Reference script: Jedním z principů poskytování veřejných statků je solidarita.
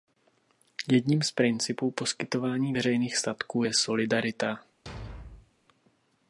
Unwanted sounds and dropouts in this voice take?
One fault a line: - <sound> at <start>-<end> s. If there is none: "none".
- thud at 4.9-5.5 s